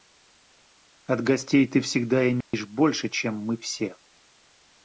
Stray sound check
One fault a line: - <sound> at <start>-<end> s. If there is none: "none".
- dropout at 2.4-2.5 s